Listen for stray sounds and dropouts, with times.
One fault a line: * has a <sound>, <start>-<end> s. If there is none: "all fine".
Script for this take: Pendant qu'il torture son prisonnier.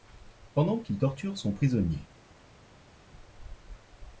all fine